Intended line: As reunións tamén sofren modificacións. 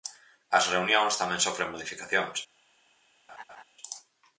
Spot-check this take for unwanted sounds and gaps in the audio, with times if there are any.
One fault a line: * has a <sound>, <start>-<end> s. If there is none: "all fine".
* has a laugh, 3.3-3.6 s